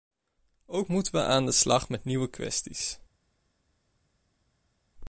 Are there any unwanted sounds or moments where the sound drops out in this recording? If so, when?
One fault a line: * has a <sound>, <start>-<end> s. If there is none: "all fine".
all fine